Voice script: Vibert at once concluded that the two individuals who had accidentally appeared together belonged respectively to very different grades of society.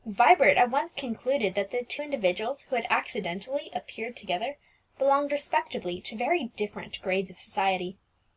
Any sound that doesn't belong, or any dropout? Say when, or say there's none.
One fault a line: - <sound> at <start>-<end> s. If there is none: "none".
none